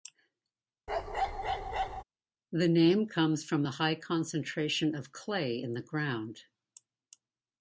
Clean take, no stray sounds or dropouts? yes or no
no